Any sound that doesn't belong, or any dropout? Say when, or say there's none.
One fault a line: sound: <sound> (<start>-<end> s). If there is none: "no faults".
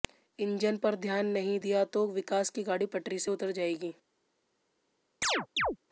sound: chirp (5.2-5.8 s)